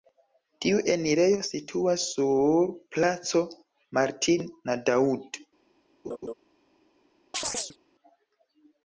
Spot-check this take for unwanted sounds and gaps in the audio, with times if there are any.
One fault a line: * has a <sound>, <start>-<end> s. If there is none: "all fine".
* has a laugh, 6.0-6.3 s
* has a chirp, 7.3-7.8 s